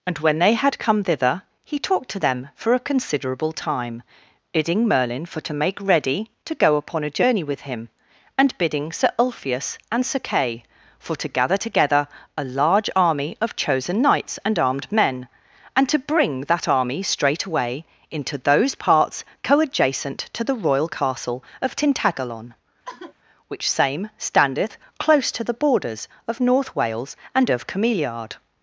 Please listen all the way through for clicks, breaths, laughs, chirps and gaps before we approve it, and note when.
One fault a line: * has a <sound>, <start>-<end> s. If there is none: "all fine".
* has a sigh, 22.8-23.1 s